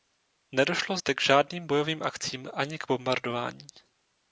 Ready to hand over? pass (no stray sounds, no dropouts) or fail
pass